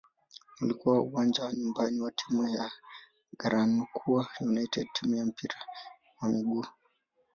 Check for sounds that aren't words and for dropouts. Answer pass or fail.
pass